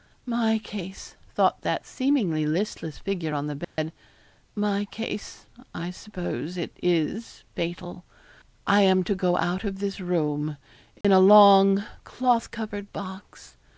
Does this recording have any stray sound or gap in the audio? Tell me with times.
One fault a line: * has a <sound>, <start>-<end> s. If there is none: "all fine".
* has a dropout, 3.6-3.8 s
* has a dropout, 11.0-11.0 s